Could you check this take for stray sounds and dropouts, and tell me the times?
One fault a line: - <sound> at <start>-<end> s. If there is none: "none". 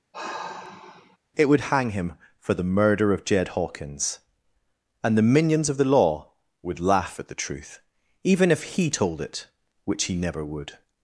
- sigh at 0.1-1.2 s